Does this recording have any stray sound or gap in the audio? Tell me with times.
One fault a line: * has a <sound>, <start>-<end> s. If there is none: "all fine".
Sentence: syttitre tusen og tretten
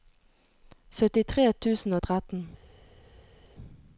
all fine